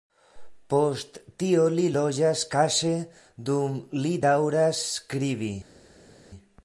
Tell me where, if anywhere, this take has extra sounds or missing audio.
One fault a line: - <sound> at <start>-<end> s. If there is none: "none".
none